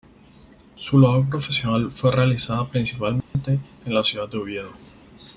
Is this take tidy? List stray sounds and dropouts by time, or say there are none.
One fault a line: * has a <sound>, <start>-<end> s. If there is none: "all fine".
* has a dropout, 3.2-3.3 s